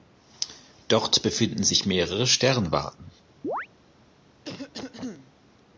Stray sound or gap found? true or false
true